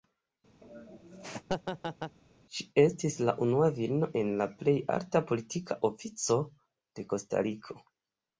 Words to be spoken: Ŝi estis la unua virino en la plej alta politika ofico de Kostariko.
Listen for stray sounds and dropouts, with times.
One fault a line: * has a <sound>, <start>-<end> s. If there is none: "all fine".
* has a laugh, 0.6-2.2 s